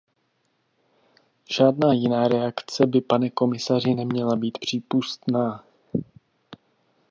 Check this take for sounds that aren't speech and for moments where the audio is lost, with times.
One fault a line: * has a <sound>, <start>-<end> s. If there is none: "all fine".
all fine